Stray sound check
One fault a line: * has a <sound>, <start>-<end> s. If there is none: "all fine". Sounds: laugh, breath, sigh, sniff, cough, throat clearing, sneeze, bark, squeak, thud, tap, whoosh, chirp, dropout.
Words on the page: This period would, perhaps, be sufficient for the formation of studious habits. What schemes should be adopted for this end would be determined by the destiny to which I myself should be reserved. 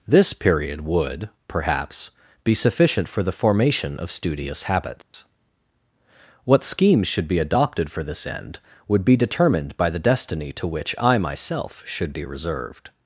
* has a dropout, 5.0-5.1 s